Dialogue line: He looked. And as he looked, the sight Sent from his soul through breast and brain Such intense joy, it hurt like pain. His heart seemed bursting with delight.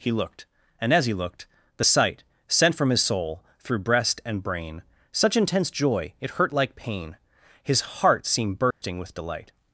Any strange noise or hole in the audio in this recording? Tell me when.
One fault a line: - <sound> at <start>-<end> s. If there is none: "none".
- dropout at 8.7-8.8 s